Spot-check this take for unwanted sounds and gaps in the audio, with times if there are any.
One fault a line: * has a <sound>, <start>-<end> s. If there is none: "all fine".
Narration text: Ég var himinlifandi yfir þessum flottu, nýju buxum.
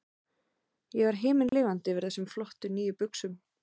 * has a dropout, 1.5-1.5 s